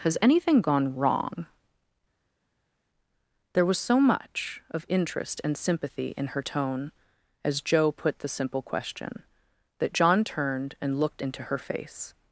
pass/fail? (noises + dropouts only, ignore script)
pass